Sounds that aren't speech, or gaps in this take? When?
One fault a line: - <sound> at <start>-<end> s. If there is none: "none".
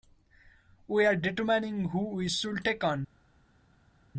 none